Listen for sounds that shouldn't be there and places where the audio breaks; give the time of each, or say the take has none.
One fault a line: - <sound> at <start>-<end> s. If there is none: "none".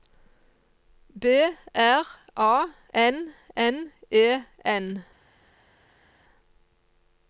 none